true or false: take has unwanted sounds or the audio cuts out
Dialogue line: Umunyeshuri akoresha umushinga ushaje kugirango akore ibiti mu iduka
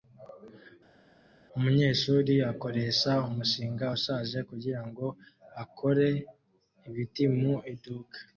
false